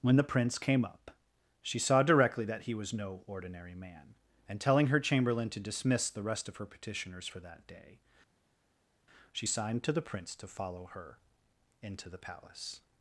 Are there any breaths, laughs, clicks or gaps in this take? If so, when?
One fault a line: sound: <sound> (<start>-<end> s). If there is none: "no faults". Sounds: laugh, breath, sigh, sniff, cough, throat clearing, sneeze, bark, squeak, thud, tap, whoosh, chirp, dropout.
no faults